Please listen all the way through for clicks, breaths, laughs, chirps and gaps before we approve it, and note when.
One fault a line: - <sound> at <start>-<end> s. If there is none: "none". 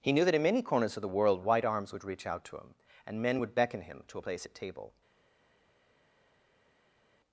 none